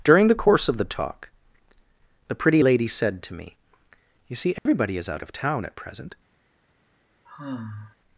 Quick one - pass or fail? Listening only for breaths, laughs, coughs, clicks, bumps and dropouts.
fail